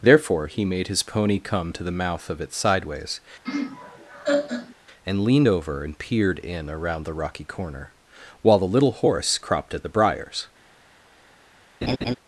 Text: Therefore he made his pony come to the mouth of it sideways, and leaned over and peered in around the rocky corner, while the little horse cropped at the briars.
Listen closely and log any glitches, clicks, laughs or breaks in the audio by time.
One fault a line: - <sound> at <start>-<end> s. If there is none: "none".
- laugh at 3.4-4.7 s
- laugh at 11.8-12.2 s